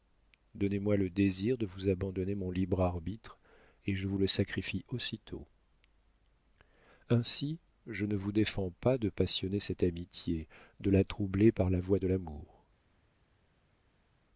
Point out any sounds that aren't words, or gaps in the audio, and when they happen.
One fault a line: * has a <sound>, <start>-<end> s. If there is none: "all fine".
all fine